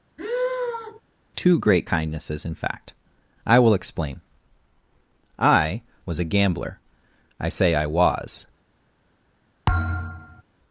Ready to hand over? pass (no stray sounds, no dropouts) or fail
fail